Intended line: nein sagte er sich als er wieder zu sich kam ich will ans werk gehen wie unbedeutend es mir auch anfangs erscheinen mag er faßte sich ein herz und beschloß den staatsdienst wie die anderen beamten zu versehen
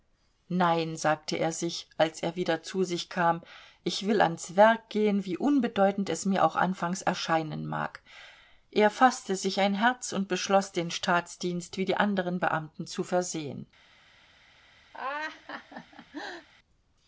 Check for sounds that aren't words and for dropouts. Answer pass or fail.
fail